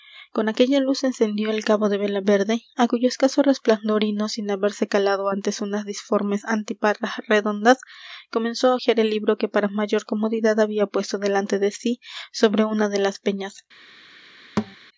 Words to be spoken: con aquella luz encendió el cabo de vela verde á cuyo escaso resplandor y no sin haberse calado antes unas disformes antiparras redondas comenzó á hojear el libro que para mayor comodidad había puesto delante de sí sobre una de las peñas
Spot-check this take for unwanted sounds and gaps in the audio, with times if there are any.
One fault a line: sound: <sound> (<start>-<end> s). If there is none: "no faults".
sound: thud (14.6-14.8 s)